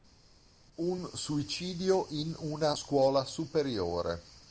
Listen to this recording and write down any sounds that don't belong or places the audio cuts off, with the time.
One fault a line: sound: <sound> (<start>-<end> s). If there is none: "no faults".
no faults